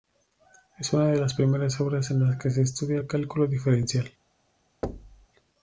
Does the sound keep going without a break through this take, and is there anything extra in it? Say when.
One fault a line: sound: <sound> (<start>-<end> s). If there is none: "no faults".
sound: thud (4.8-5.3 s)